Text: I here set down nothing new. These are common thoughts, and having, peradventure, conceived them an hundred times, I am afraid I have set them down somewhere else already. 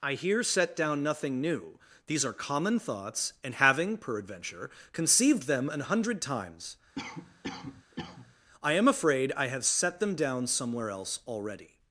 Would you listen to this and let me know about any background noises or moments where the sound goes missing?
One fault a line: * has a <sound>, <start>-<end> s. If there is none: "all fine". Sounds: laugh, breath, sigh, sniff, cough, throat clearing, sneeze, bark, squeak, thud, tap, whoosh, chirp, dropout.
* has a cough, 7.0-8.4 s